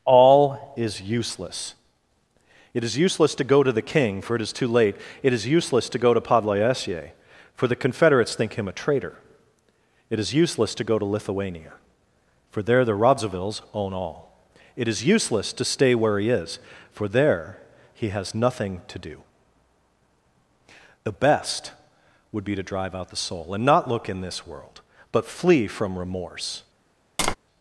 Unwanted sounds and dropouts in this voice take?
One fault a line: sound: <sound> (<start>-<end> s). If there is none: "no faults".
sound: tap (27.2-27.4 s)